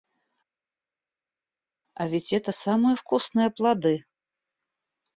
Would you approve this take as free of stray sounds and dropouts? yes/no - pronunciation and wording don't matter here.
yes